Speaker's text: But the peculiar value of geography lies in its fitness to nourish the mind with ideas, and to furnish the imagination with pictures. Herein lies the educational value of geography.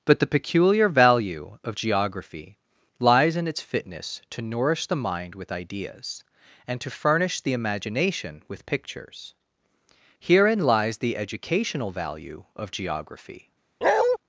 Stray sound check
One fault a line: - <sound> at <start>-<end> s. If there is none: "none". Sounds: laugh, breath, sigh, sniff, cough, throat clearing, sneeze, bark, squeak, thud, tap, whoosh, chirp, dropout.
- bark at 13.8-14.2 s